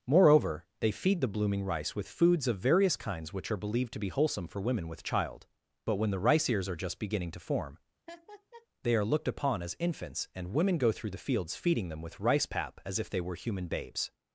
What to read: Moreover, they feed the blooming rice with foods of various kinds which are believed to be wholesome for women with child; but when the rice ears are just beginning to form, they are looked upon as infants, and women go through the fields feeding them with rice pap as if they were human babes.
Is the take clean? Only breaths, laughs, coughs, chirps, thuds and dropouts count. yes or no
no